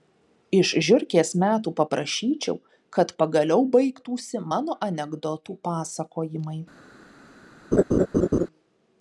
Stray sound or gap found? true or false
true